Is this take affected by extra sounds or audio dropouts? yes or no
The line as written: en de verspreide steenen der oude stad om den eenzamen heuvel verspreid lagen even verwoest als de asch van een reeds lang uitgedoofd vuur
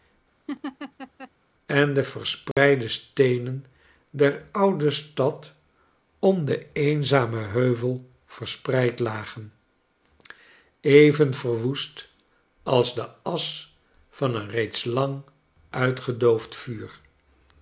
yes